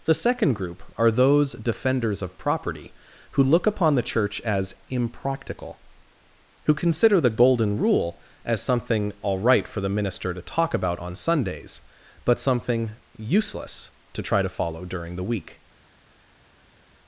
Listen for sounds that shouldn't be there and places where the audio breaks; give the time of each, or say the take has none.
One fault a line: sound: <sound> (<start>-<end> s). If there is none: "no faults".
no faults